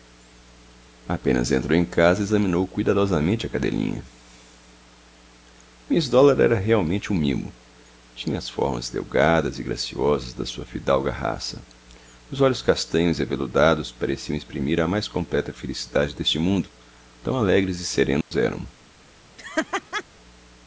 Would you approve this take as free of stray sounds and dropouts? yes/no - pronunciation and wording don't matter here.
no